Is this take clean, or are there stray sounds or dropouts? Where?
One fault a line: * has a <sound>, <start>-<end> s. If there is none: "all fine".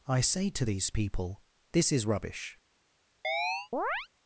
* has a chirp, 3.2-4.1 s